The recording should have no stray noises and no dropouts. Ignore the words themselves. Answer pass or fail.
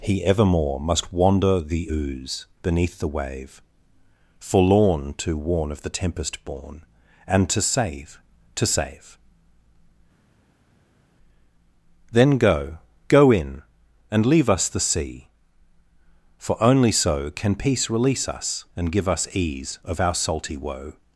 pass